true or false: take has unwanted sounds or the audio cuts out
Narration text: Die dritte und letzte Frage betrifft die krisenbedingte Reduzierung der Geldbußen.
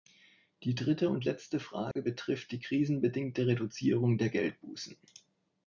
true